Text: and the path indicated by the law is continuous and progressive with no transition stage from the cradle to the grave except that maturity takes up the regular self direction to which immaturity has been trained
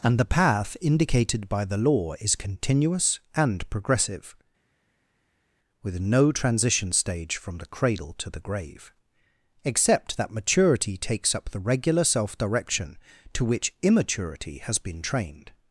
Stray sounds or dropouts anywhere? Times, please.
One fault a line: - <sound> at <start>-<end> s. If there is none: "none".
none